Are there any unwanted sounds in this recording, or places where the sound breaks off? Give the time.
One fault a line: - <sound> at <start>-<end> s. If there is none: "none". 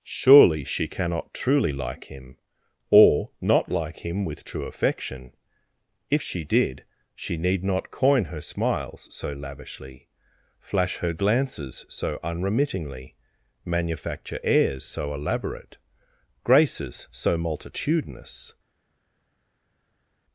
none